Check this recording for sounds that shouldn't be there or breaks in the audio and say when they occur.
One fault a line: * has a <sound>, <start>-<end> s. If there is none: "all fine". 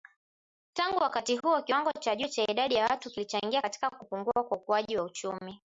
all fine